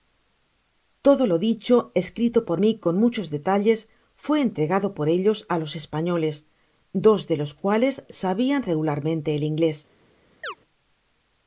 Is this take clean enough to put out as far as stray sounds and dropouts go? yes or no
no